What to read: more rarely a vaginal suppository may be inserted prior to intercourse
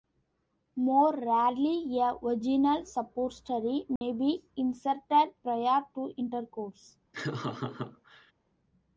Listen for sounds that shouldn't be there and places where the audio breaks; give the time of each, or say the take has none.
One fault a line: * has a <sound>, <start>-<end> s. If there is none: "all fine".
* has a dropout, 4.0-4.0 s
* has a laugh, 7.1-8.3 s